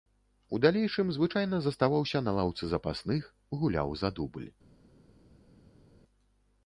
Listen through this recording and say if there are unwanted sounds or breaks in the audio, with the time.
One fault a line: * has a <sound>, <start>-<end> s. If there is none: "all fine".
all fine